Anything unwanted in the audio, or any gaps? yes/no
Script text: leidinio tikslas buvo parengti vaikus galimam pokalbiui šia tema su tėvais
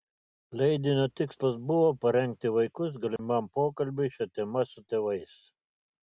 yes